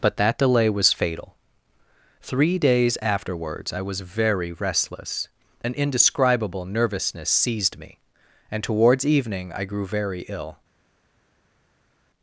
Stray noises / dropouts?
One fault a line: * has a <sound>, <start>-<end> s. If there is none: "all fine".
all fine